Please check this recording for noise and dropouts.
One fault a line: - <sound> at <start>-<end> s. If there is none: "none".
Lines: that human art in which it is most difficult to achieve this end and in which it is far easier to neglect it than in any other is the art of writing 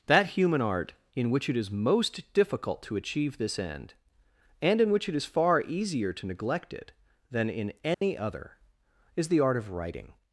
- dropout at 7.9-8.0 s